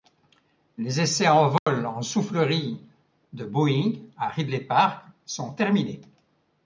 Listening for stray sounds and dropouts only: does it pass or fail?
fail